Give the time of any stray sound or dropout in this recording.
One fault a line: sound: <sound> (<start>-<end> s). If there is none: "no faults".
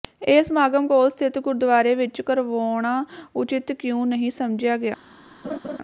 sound: laugh (5.4-5.8 s)